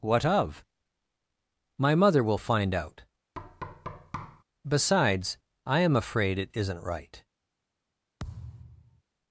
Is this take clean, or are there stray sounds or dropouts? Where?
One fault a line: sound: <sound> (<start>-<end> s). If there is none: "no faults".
sound: thud (3.3-4.4 s)
sound: thud (8.2-9.0 s)